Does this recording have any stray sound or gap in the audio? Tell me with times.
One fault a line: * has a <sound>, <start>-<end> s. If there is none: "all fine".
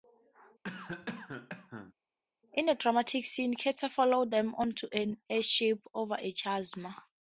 * has a cough, 0.6-1.9 s